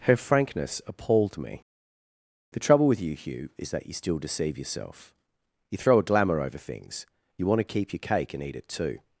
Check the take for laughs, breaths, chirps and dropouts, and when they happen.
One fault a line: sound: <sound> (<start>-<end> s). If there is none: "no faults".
no faults